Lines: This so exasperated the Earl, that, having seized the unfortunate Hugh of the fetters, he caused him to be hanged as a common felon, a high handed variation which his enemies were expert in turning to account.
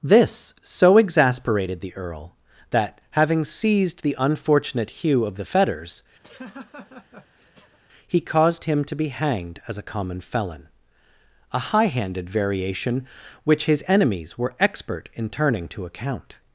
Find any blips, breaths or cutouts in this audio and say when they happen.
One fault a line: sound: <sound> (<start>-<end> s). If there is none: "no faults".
sound: laugh (6.2-7.8 s)